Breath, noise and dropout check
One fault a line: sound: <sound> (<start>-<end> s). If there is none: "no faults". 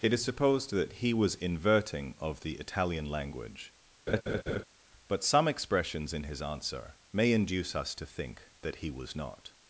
sound: laugh (4.1-4.6 s)